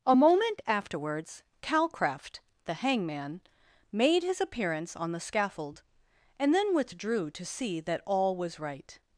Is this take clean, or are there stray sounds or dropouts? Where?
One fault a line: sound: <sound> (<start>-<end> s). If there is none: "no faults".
no faults